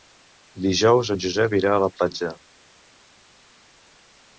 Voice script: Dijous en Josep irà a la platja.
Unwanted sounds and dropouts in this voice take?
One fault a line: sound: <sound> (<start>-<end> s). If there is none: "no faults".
no faults